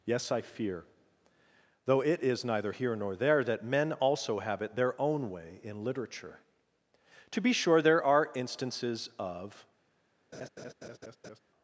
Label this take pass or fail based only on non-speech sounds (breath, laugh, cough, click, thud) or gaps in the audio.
fail